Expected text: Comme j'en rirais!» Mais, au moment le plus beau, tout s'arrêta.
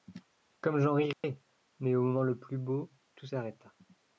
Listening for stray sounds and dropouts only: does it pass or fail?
fail